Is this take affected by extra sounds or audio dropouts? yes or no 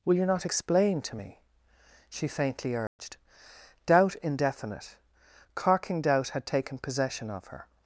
yes